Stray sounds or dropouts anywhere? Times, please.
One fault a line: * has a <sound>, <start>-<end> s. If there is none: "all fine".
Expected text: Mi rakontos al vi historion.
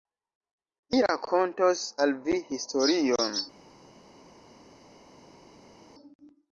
all fine